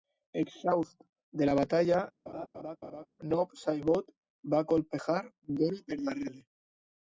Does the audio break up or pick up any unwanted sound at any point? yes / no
yes